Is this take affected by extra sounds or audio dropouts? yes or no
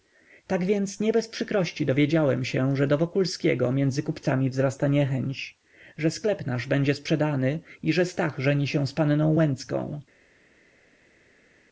no